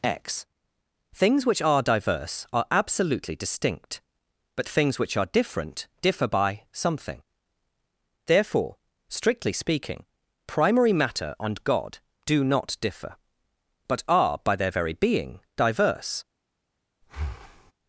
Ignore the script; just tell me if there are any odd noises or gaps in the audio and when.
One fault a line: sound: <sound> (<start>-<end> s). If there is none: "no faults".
sound: breath (17.0-17.7 s)